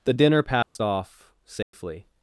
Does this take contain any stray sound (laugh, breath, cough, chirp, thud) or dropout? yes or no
yes